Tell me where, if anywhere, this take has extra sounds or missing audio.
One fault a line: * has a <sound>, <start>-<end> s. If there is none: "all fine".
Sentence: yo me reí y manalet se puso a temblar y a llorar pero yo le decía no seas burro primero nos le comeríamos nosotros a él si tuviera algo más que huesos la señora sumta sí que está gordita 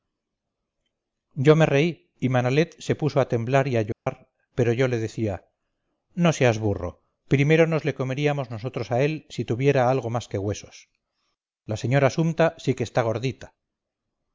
* has a dropout, 3.9-4.1 s